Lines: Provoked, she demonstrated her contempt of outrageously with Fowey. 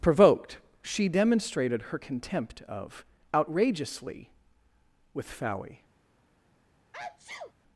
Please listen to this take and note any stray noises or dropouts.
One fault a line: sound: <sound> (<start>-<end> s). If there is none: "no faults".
sound: sneeze (6.9-7.5 s)